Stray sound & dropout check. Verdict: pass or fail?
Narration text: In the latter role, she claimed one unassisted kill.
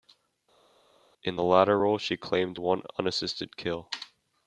pass